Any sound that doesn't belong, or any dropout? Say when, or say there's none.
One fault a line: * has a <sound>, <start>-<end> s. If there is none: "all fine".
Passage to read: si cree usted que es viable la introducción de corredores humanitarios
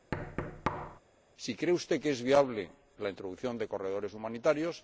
* has a thud, 0.1-1.0 s